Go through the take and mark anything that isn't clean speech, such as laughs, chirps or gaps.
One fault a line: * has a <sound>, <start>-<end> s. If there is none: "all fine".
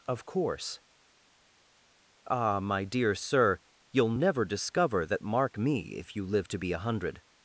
all fine